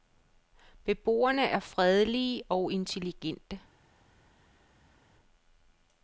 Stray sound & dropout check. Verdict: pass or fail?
pass